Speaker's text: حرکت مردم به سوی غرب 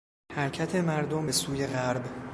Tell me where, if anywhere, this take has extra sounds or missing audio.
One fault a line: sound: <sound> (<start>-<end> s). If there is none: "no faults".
no faults